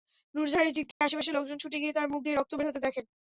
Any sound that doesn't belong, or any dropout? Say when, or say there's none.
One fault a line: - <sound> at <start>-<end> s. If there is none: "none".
- dropout at 0.9-1.0 s